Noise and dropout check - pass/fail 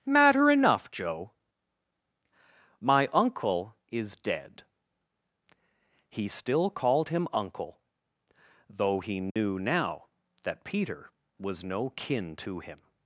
fail